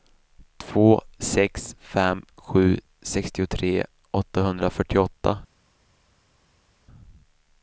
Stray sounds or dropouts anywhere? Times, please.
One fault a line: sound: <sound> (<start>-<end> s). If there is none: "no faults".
no faults